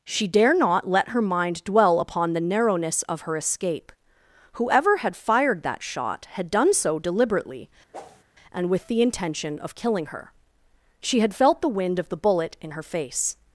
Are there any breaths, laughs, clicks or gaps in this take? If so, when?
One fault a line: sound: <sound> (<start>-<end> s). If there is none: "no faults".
sound: whoosh (7.9-8.2 s)